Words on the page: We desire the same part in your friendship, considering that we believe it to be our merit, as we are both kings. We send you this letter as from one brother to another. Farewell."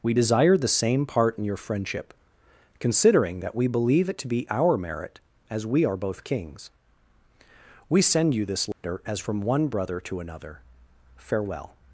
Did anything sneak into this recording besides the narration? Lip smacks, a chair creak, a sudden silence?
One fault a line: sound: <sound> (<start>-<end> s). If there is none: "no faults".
sound: dropout (8.7-8.8 s)